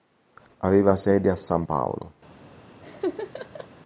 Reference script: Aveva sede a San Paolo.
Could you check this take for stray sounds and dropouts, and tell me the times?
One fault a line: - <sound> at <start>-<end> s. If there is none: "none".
- laugh at 2.8-3.7 s